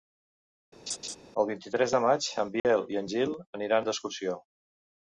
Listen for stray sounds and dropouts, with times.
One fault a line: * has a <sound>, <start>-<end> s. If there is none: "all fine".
* has a laugh, 0.9-1.2 s
* has a dropout, 2.6-2.6 s